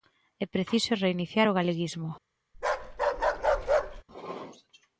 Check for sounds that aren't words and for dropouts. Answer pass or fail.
fail